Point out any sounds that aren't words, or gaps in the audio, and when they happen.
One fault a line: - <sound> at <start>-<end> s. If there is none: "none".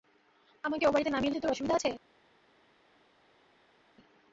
none